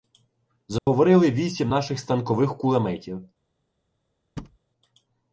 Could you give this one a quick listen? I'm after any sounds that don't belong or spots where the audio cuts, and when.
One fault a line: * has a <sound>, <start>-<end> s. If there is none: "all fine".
* has a dropout, 0.8-0.9 s
* has a thud, 4.4-4.6 s